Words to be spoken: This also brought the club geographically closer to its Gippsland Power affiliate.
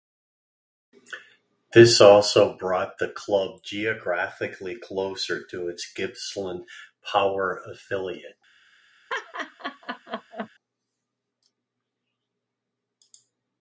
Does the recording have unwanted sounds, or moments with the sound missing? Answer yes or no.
yes